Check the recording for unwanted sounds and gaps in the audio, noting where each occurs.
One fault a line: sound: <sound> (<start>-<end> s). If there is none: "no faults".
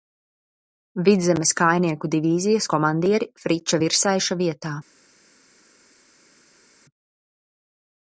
no faults